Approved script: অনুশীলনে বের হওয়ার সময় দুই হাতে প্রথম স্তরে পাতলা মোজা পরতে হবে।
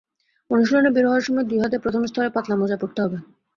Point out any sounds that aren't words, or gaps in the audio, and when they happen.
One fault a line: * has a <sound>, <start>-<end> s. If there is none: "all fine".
all fine